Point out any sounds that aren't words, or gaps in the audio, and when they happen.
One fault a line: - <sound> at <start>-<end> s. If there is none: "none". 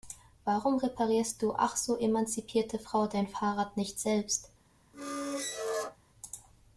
- squeak at 4.9-6.0 s